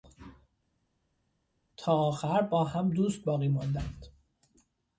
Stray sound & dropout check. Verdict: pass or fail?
pass